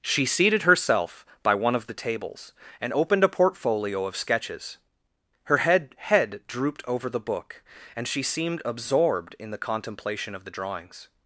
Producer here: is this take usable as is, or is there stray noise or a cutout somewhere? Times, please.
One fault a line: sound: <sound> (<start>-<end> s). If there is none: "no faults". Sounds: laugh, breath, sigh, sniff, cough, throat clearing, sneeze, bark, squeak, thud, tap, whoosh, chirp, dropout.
no faults